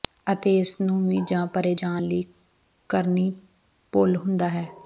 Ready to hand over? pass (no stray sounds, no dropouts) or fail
pass